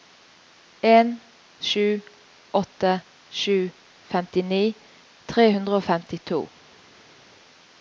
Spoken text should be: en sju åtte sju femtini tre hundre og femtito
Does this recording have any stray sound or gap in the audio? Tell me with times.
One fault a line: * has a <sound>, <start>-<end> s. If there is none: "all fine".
all fine